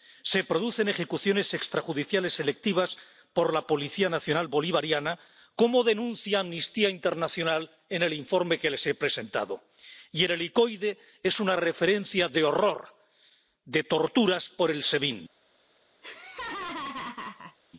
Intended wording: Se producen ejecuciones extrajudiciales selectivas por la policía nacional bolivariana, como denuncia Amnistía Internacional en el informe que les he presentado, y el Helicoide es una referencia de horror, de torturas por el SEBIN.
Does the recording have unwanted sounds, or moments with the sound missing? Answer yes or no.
yes